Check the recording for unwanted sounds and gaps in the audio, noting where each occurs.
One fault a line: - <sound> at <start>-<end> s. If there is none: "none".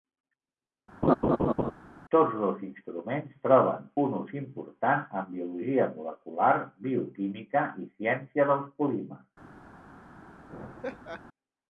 - laugh at 1.0-1.7 s
- laugh at 10.5-11.2 s